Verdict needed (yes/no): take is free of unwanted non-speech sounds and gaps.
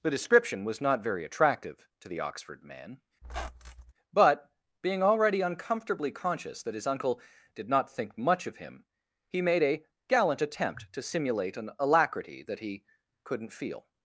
no